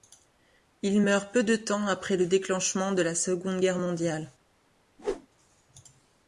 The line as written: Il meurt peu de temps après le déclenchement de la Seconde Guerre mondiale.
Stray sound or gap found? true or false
true